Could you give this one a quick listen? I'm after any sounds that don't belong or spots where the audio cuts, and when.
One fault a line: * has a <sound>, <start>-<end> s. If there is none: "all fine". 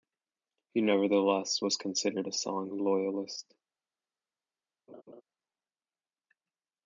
* has a laugh, 4.9-5.2 s